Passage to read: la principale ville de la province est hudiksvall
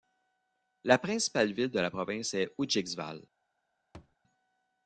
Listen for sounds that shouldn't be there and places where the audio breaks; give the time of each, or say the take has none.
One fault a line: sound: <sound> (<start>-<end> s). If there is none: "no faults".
sound: thud (3.9-4.2 s)